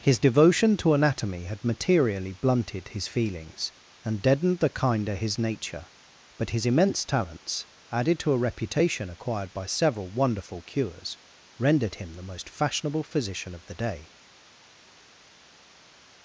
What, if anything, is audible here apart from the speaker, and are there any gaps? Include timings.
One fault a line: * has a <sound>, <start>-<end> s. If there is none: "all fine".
all fine